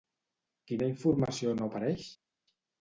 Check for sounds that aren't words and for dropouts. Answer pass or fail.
pass